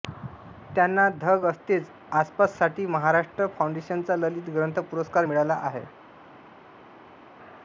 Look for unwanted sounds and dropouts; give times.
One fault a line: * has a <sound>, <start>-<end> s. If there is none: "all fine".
all fine